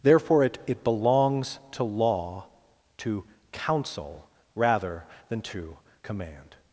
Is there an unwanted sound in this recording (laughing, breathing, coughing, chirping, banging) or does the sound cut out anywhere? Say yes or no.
no